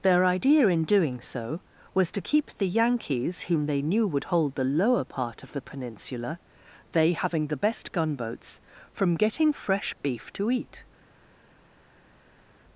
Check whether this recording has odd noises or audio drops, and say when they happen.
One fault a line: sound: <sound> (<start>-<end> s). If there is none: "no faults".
no faults